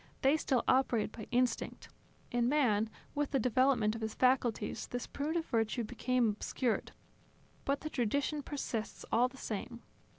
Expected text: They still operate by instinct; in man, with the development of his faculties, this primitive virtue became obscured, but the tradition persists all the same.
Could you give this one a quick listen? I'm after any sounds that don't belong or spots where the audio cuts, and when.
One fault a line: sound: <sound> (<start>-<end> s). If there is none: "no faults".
no faults